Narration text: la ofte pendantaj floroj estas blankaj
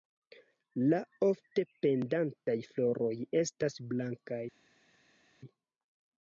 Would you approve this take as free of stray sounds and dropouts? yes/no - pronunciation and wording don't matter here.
yes